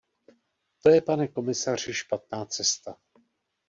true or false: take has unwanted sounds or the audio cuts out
false